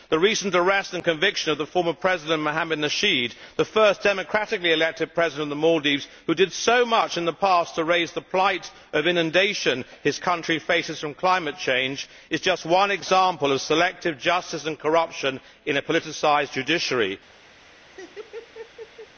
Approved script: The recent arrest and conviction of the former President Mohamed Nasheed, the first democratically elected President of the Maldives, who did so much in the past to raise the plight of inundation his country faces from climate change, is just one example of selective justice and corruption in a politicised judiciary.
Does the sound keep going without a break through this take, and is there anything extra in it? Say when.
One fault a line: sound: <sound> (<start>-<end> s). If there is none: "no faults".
sound: laugh (17.6-19.1 s)